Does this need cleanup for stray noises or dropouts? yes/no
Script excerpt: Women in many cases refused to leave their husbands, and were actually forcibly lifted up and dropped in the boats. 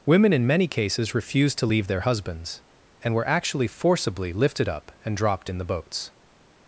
no